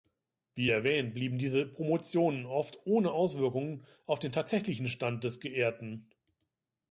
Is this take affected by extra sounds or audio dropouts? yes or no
no